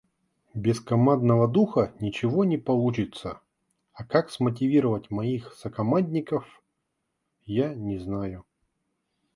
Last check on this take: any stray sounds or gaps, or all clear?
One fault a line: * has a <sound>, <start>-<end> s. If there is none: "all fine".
all fine